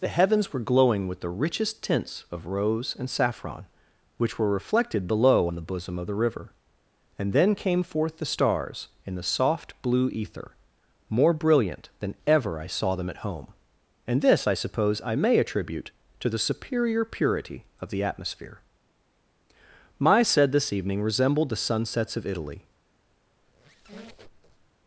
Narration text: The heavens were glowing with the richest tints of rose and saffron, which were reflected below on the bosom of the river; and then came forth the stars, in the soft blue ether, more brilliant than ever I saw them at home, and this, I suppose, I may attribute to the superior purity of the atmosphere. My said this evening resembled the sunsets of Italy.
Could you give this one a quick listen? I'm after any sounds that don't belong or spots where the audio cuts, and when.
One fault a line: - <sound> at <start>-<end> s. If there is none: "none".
- squeak at 23.4-24.7 s